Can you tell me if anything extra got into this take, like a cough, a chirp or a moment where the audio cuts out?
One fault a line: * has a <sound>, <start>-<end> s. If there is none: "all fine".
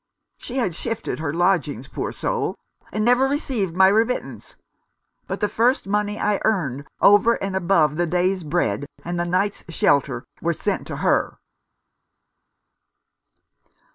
all fine